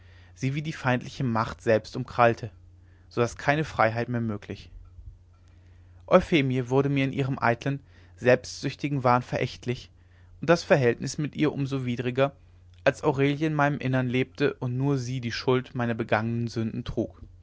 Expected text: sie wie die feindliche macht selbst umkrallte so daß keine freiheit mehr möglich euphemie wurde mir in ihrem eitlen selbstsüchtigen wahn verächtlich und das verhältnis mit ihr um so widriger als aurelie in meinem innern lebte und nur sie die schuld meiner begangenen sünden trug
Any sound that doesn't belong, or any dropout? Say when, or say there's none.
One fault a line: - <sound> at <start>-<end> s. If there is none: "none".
none